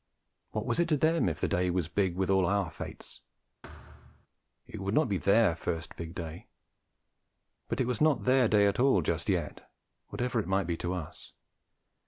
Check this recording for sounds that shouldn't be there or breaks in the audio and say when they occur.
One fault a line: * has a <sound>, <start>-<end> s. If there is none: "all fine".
* has a thud, 3.6-4.3 s